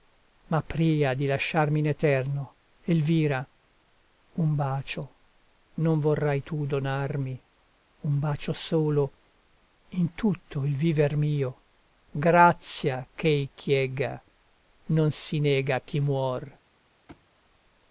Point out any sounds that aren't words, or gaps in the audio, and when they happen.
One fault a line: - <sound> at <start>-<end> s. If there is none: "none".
- thud at 17.1-17.3 s